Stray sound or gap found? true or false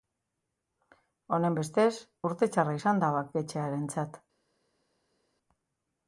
false